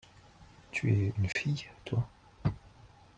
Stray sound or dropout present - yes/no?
yes